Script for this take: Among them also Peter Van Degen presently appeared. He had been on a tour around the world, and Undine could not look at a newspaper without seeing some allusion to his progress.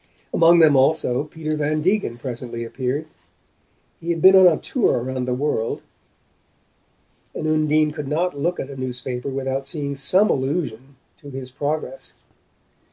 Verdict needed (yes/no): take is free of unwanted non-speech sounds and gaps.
yes